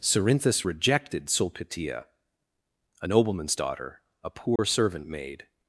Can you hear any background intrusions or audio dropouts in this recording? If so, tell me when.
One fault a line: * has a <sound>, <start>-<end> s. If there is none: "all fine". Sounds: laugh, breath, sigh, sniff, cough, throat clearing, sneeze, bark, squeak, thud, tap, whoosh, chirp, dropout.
* has a dropout, 4.6-4.6 s